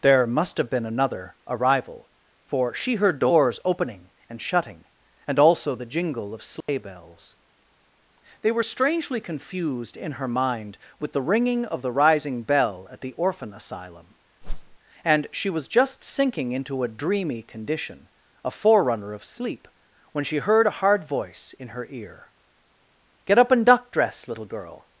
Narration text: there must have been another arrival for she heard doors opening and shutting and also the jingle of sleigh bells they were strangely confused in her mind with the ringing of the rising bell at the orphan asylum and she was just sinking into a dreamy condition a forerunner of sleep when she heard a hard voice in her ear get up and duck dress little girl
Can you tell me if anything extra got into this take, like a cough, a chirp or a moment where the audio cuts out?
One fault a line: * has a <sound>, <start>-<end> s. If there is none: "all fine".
* has a dropout, 6.6-6.7 s
* has a whoosh, 14.4-14.8 s